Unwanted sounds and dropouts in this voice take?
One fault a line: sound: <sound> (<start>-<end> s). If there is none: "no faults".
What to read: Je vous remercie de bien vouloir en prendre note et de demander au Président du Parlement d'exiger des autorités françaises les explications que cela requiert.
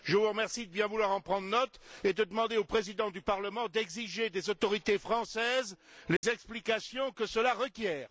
sound: dropout (6.2-6.2 s)